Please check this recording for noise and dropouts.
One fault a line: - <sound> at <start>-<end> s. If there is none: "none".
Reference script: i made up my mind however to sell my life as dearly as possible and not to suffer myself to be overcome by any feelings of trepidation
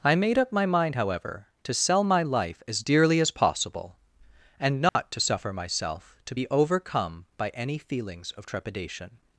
- dropout at 4.9-5.0 s